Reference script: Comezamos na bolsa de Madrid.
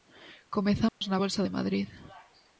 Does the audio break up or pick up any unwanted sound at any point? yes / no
yes